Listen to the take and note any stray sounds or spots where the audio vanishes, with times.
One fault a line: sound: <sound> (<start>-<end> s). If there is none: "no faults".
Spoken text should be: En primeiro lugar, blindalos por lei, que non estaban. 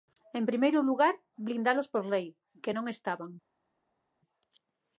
no faults